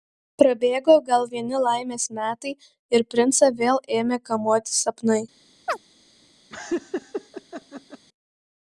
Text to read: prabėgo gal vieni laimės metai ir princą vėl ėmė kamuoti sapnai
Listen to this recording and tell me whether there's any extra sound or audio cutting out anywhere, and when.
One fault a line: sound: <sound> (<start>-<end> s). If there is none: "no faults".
sound: chirp (5.7-5.8 s)
sound: laugh (6.5-8.1 s)